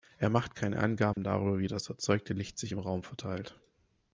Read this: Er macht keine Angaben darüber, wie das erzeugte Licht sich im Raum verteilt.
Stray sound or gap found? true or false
true